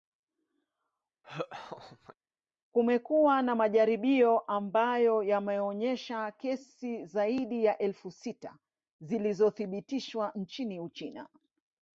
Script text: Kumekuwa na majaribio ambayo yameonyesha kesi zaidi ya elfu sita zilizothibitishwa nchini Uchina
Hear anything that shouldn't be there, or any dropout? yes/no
yes